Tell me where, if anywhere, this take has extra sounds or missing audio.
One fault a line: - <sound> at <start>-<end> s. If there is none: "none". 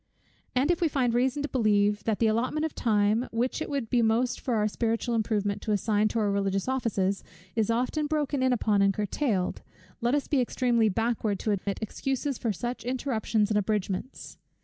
- dropout at 11.6-11.7 s